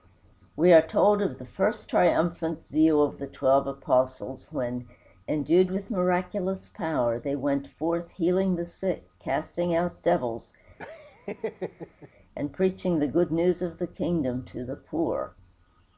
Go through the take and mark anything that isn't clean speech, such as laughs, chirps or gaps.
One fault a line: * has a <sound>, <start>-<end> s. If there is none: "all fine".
* has a laugh, 10.8-12.1 s